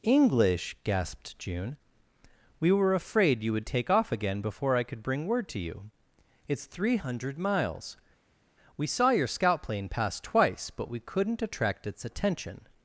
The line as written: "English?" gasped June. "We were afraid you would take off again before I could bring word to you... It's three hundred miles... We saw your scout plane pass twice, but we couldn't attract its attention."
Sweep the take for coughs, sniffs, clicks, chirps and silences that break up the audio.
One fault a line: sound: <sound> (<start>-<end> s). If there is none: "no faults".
no faults